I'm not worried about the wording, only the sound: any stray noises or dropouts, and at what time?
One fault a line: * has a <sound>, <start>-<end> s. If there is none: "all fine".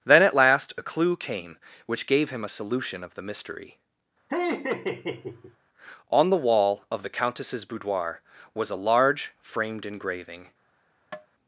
* has a laugh, 4.3-5.6 s
* has a tap, 11.1-11.3 s